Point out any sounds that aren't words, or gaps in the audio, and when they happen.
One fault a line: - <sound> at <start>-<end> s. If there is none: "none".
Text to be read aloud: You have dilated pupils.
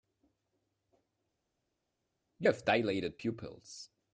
none